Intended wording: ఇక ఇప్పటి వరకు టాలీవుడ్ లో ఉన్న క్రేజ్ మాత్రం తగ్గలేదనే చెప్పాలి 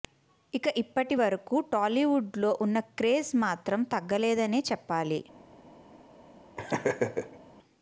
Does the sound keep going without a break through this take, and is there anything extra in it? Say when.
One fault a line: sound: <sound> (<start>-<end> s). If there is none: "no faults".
sound: laugh (6.6-7.4 s)